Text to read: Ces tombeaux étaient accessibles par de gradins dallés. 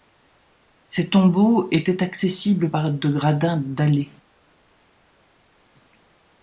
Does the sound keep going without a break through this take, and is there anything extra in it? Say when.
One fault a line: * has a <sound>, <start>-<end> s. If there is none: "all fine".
all fine